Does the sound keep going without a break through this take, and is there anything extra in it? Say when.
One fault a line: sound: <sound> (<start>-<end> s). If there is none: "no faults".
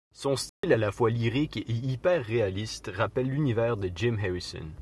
sound: dropout (0.5-0.6 s)